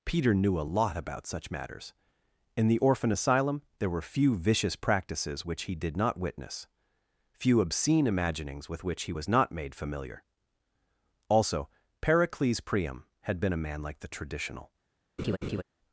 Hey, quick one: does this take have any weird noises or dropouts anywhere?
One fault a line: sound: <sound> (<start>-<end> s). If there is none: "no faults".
sound: laugh (15.2-15.6 s)